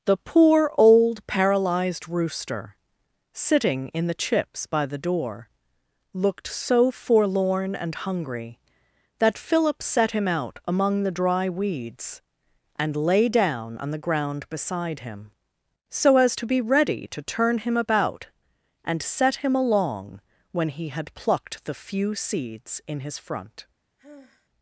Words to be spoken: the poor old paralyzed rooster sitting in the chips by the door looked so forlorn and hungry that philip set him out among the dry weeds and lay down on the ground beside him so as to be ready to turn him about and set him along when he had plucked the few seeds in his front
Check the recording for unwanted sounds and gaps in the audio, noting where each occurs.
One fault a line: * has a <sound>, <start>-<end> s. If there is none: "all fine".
* has a sigh, 24.0-24.5 s